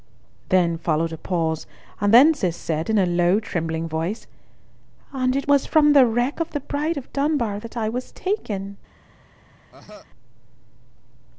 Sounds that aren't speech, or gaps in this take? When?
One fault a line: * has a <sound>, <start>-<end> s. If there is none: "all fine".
* has a cough, 9.7-10.1 s